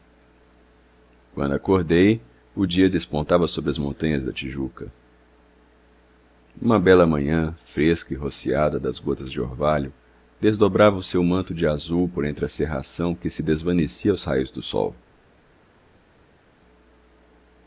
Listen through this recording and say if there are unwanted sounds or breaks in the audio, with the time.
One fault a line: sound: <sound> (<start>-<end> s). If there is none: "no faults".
no faults